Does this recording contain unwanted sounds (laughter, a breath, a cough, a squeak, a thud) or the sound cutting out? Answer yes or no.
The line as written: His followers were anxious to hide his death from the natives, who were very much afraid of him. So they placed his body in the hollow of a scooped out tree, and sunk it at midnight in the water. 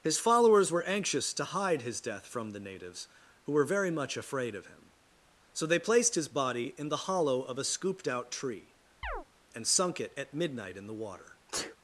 yes